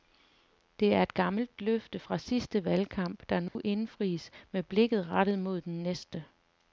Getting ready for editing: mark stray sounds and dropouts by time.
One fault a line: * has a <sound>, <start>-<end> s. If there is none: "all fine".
* has a dropout, 3.5-3.6 s